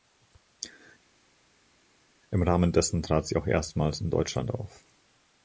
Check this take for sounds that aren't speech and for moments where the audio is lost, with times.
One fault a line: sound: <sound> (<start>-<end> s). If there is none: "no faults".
no faults